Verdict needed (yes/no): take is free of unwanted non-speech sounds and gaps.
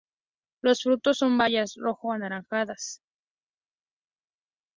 yes